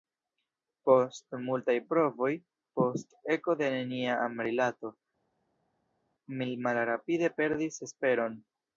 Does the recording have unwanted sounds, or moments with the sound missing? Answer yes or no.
no